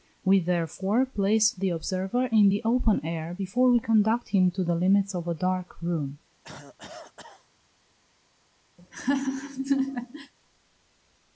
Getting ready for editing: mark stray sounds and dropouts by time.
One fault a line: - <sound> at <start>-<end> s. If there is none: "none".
- cough at 6.4-7.5 s
- laugh at 8.8-10.3 s